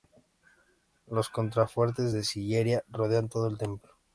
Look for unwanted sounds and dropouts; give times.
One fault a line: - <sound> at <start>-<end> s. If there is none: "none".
none